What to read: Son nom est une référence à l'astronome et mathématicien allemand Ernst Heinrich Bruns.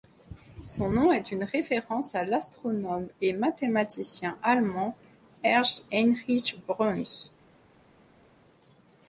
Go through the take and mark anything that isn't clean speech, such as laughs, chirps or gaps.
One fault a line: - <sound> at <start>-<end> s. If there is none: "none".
none